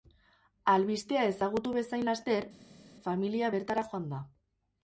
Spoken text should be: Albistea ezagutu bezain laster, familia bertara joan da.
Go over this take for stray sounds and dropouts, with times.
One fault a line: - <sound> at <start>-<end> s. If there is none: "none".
none